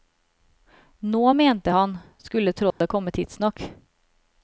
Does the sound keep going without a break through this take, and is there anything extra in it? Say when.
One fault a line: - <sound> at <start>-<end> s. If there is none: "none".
- dropout at 2.7-2.8 s